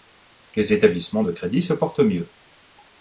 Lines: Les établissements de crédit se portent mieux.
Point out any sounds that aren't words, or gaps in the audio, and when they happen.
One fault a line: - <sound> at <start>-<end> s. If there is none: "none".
none